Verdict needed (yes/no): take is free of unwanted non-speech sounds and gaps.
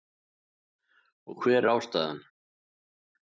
yes